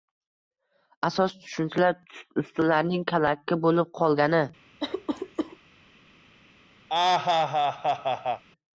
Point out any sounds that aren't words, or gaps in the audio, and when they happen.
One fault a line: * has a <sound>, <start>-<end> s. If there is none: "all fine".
* has a cough, 4.8-5.6 s
* has a laugh, 6.9-8.4 s